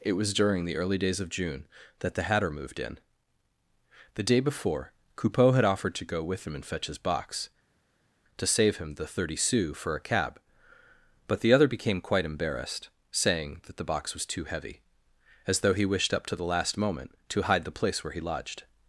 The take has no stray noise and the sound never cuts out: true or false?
true